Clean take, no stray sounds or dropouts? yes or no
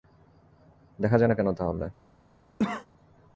no